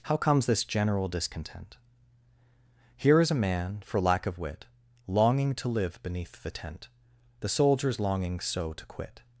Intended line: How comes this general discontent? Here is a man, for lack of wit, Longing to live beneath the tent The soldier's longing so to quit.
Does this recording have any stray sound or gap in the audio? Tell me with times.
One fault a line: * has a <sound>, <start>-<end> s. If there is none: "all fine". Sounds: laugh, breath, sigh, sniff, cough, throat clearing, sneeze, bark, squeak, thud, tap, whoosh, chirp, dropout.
all fine